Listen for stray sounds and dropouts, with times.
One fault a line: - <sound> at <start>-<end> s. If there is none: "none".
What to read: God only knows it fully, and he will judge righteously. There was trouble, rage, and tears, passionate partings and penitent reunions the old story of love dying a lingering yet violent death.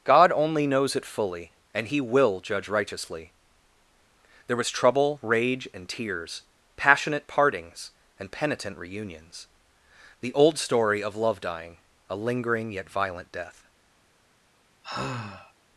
- sigh at 14.8-15.5 s